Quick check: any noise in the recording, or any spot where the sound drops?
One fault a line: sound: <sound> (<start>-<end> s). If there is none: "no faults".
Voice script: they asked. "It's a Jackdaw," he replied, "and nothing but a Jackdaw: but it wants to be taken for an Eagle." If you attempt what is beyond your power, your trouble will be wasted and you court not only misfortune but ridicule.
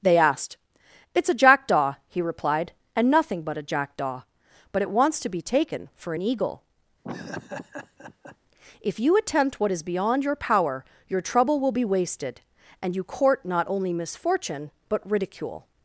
sound: laugh (7.0-8.4 s)